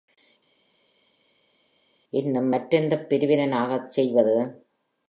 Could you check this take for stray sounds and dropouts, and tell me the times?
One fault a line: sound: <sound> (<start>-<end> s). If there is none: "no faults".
no faults